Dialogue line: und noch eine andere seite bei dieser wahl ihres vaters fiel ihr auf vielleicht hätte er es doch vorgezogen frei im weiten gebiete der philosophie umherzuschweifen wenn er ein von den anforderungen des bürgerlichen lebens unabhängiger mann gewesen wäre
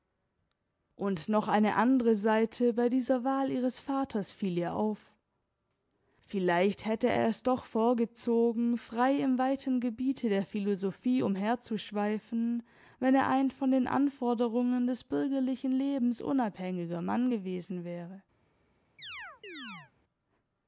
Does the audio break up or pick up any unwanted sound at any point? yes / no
yes